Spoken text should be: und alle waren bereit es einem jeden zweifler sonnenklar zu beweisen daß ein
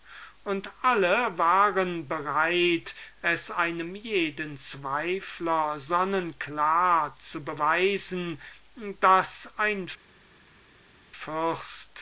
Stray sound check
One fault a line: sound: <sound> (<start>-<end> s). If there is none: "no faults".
no faults